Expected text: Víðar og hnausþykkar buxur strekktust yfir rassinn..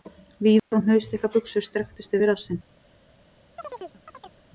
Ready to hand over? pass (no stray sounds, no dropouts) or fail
fail